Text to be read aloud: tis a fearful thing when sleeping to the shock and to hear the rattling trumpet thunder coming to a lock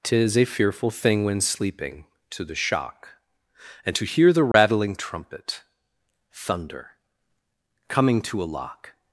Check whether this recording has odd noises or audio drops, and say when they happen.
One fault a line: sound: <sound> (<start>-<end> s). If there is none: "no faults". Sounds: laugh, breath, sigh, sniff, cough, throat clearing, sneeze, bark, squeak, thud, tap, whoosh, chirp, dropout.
sound: dropout (4.5-4.5 s)